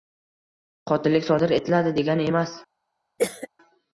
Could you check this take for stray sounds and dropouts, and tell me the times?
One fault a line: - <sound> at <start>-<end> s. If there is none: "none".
- cough at 3.2-3.5 s